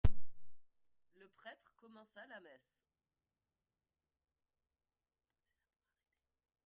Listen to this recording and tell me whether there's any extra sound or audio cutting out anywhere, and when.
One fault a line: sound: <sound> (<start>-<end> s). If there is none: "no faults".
no faults